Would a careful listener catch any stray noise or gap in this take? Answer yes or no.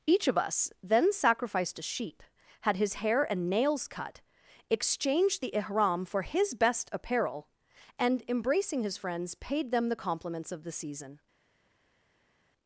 no